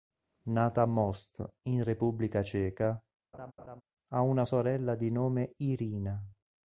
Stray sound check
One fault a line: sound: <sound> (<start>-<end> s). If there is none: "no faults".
sound: laugh (3.3-3.8 s)